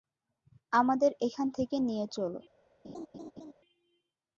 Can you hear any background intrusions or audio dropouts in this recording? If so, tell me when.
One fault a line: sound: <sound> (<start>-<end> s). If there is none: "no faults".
sound: laugh (2.8-3.5 s)